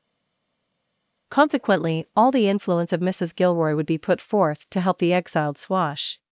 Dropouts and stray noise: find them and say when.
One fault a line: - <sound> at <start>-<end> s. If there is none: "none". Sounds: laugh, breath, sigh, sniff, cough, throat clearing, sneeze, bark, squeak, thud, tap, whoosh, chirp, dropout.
none